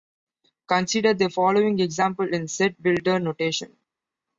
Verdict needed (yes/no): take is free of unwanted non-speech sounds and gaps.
yes